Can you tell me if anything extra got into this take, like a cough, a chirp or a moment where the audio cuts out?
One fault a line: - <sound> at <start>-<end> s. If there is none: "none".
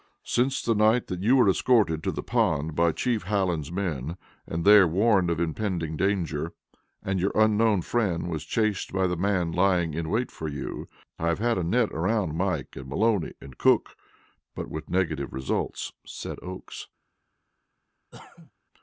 - cough at 18.1-18.5 s